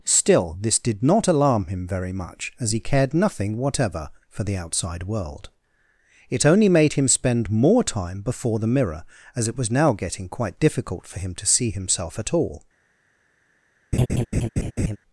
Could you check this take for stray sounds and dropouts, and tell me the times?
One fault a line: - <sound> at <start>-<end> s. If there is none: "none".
- laugh at 13.9-15.0 s